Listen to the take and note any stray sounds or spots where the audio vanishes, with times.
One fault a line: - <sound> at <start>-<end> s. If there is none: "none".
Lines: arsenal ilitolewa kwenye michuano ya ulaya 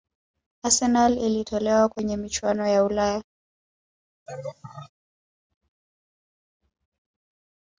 - laugh at 4.3-4.9 s